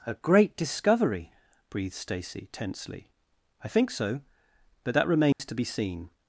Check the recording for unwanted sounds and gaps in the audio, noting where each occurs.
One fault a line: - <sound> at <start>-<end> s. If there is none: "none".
- dropout at 5.3-5.4 s